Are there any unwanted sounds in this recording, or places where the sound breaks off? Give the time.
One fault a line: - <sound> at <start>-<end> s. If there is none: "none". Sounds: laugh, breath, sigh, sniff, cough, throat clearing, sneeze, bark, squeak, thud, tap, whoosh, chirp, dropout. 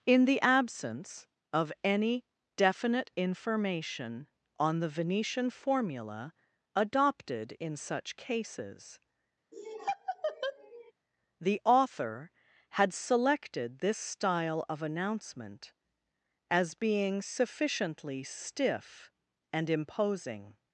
- laugh at 9.5-10.9 s